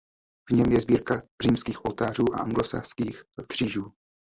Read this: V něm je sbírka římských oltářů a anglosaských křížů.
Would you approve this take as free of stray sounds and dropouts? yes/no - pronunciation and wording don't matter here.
yes